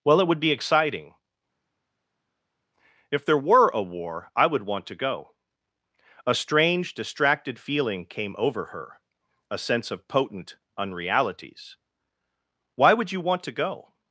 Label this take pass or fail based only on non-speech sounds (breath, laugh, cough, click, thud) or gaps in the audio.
pass